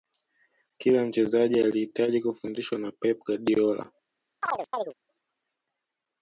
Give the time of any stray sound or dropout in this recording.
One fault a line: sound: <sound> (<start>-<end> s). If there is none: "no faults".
sound: chirp (4.4-4.9 s)